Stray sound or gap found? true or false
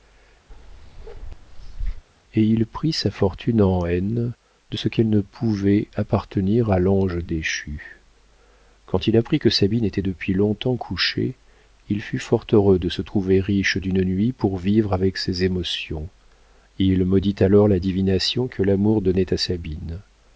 true